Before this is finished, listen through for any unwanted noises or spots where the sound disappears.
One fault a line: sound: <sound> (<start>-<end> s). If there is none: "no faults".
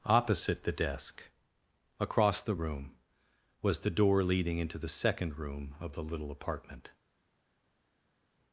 no faults